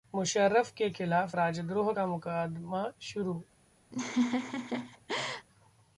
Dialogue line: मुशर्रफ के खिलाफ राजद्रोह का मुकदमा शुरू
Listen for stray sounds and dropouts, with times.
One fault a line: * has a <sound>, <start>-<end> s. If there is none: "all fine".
* has a laugh, 3.9-5.5 s